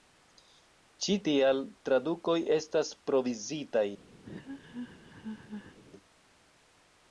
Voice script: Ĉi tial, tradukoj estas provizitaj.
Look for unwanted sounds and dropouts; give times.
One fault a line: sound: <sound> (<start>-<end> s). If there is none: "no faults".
sound: laugh (4.2-5.8 s)